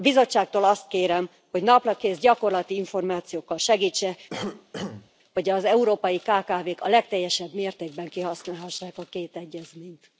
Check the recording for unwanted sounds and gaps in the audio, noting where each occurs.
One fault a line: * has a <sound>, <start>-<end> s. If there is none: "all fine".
* has a cough, 4.3-5.1 s